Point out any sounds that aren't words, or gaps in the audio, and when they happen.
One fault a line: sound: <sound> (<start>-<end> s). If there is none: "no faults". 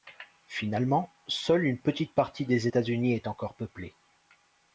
no faults